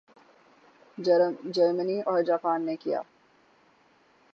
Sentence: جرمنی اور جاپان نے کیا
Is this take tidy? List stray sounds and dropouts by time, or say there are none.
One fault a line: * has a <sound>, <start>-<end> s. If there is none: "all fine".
all fine